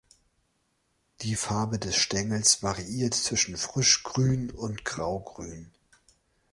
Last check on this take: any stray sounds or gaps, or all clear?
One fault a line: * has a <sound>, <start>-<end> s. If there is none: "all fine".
all fine